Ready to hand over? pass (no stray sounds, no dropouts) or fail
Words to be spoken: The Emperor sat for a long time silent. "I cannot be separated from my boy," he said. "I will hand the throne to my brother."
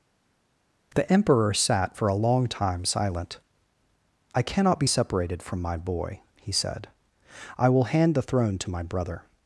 pass